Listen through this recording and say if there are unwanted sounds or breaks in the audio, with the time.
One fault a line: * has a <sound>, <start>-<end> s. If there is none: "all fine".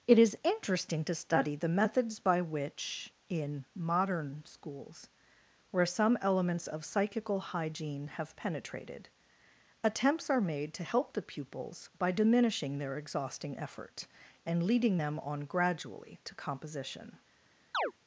* has a chirp, 17.7-17.9 s